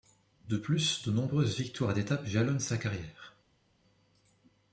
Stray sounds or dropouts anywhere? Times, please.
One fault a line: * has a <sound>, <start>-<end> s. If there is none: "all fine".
all fine